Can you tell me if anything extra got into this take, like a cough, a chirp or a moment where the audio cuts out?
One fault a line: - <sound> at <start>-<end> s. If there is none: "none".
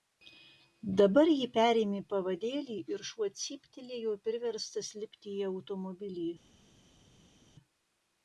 none